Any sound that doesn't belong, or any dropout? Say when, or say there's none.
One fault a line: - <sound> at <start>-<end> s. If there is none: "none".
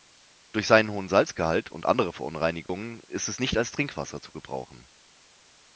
- dropout at 2.7-2.7 s